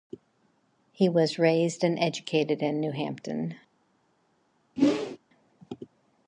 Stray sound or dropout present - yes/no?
yes